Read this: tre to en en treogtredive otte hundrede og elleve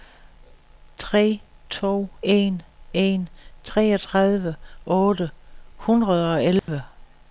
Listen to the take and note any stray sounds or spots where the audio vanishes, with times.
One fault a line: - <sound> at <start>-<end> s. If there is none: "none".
- dropout at 6.6-6.7 s